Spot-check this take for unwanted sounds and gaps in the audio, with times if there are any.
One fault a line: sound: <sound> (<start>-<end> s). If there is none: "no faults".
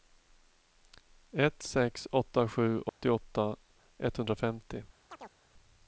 sound: dropout (2.9-3.0 s)
sound: chirp (5.1-5.4 s)